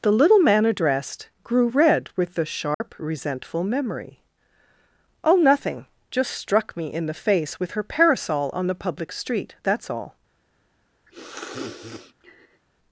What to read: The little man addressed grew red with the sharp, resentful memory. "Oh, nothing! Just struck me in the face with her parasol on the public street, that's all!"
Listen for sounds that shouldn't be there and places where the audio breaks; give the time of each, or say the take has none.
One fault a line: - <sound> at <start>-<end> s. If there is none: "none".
- dropout at 2.7-2.8 s
- sniff at 11.1-12.6 s